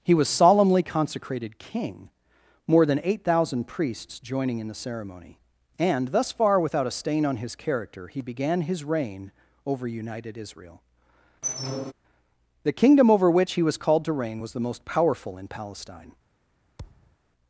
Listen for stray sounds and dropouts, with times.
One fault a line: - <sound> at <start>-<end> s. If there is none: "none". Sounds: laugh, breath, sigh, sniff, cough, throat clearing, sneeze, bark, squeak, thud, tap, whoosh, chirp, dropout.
- squeak at 11.4-11.9 s
- thud at 16.8-17.2 s